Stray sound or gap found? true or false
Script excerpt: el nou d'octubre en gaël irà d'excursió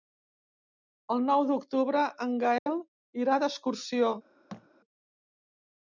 true